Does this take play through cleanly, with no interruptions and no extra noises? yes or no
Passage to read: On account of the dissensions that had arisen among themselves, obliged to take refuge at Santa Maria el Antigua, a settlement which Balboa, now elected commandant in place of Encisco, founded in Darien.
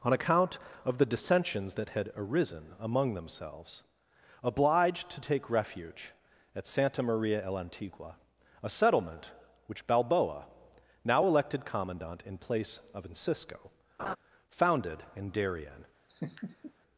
no